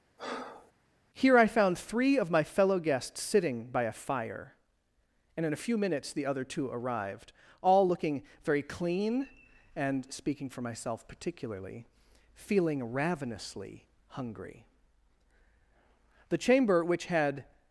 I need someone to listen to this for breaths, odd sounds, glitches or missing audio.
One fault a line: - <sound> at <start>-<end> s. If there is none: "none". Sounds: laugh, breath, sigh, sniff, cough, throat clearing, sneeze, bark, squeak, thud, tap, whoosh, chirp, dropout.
- breath at 0.2-0.7 s